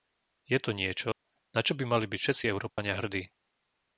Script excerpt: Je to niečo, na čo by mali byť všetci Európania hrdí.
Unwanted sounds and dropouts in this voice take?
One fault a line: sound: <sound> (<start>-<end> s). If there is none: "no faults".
sound: dropout (1.1-1.2 s)
sound: dropout (2.7-2.8 s)